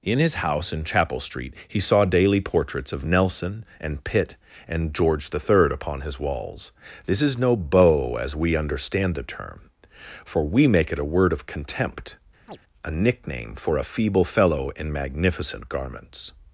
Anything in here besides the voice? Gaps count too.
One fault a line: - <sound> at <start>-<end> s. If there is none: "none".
- chirp at 12.5-12.6 s